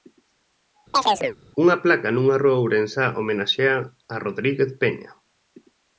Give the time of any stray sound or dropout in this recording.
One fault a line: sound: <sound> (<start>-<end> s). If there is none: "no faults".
sound: chirp (0.9-1.4 s)